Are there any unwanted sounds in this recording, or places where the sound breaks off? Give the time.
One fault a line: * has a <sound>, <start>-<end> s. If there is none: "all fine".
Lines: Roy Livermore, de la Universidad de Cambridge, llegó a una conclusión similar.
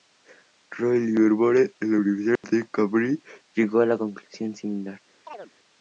* has a dropout, 2.4-2.4 s
* has a chirp, 5.3-5.5 s